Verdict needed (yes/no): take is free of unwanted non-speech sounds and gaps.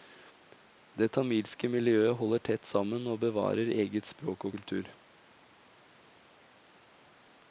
yes